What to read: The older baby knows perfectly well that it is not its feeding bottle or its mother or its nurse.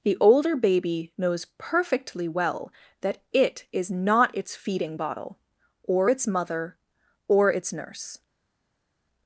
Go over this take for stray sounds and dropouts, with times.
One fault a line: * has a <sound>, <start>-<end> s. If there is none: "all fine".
all fine